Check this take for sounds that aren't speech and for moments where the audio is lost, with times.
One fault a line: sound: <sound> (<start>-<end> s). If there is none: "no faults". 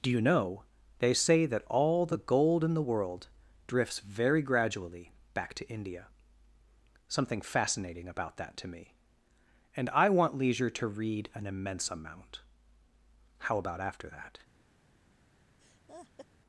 sound: laugh (15.6-16.3 s)